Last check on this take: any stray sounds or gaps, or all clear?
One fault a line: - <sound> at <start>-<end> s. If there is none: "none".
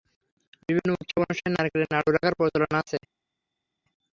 none